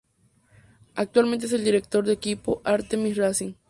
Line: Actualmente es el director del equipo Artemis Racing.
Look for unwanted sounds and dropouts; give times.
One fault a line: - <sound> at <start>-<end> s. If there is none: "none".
none